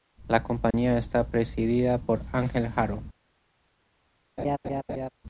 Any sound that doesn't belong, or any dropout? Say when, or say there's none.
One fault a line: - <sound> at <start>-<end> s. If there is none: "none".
- dropout at 0.7-0.7 s
- laugh at 4.4-5.1 s